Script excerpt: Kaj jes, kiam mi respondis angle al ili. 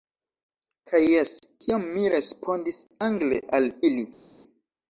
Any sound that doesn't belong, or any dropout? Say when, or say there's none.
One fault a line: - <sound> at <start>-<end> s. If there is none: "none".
none